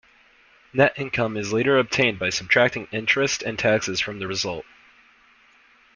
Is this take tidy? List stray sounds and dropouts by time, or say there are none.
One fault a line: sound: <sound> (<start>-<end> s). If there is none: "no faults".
no faults